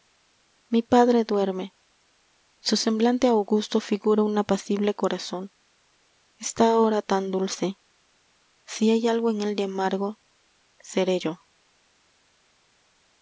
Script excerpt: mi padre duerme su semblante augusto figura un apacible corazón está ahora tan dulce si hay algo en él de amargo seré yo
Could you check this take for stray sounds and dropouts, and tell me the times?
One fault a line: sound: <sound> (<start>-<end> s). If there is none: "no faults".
no faults